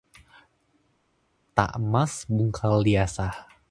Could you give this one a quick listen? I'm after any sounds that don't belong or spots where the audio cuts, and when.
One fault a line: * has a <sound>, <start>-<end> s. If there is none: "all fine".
all fine